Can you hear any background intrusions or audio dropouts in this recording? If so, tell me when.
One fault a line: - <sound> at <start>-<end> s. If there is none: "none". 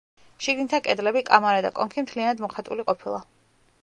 none